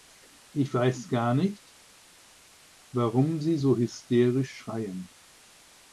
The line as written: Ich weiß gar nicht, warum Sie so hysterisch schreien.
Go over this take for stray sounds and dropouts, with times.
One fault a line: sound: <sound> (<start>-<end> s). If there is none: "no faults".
no faults